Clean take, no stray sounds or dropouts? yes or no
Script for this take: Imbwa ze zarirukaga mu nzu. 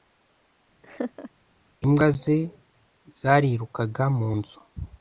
no